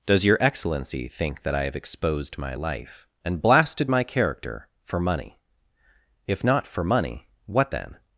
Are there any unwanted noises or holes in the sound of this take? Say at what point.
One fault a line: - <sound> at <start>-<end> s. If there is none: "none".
none